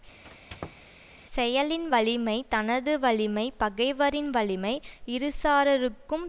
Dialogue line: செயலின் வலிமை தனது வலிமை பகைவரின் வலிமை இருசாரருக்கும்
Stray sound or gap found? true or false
true